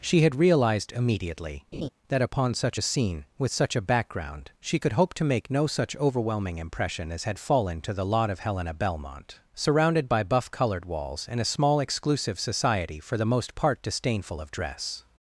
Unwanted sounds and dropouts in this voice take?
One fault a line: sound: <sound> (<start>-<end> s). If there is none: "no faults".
sound: laugh (1.7-1.9 s)